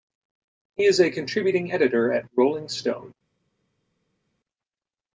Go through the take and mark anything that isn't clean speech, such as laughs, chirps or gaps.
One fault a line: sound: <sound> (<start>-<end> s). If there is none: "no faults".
no faults